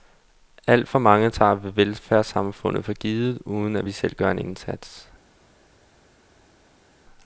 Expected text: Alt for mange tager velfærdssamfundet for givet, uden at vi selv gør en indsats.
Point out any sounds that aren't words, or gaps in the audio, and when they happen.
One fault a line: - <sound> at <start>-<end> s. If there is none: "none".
none